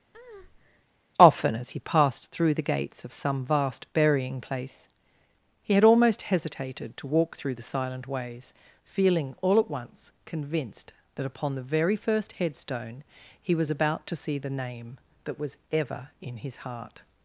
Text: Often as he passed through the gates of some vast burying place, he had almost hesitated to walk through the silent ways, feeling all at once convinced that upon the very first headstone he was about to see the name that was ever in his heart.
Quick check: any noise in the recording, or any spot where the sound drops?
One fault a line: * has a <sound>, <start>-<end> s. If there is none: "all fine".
* has a breath, 0.1-0.9 s